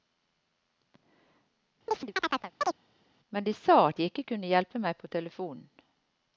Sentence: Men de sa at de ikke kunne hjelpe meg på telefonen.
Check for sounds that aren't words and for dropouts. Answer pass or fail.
fail